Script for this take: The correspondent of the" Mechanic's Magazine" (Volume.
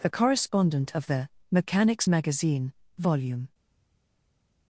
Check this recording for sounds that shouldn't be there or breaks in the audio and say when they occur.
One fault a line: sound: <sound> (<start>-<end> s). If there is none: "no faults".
no faults